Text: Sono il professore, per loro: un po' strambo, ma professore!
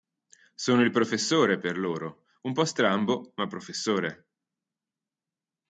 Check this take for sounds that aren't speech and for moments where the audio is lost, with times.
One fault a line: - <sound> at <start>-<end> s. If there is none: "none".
none